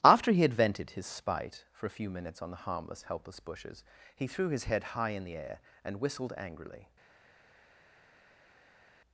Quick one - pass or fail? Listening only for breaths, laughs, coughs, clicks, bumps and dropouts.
pass